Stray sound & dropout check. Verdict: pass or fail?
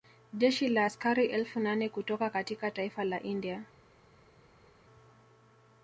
pass